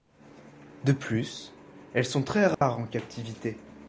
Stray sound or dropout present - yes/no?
yes